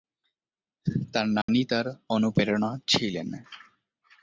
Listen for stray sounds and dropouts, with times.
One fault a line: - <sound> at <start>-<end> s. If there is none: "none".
- dropout at 1.4-1.5 s